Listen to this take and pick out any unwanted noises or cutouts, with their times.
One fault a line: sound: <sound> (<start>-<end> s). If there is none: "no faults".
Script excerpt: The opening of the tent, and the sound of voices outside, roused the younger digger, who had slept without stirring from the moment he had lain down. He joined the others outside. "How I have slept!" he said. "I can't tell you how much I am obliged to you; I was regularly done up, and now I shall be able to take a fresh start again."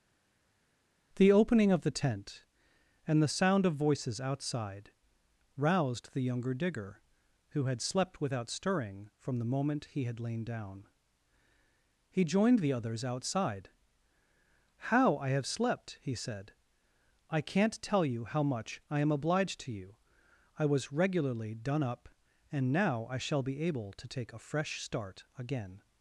no faults